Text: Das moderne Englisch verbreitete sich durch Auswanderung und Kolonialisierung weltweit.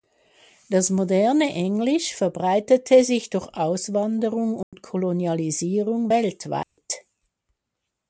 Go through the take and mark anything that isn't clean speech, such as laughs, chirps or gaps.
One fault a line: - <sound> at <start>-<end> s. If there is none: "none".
- dropout at 4.6-4.7 s
- dropout at 6.6-6.8 s